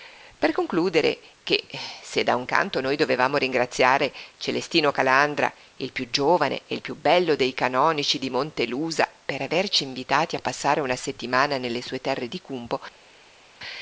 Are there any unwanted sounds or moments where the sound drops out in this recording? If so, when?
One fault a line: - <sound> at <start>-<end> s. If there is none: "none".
none